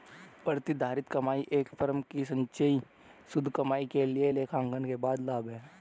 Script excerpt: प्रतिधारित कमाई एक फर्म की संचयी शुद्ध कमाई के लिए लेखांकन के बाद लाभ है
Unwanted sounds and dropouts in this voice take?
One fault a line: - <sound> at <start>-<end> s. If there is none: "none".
none